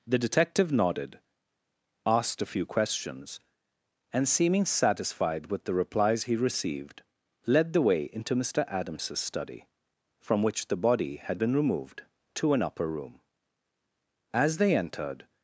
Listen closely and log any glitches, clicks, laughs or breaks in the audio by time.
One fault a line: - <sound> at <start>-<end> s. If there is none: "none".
none